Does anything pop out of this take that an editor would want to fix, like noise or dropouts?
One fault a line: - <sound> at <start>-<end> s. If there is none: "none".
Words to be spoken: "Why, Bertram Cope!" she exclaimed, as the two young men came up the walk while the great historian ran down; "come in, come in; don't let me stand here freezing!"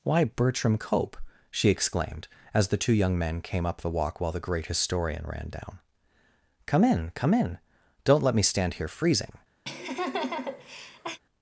- laugh at 9.6-11.2 s